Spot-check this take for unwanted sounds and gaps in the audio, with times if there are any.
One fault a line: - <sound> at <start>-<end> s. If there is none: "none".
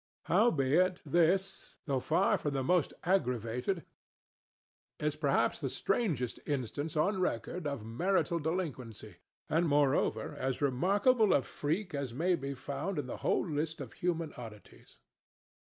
none